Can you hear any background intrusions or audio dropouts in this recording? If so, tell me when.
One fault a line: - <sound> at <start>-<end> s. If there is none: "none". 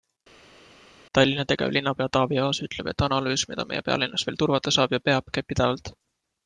none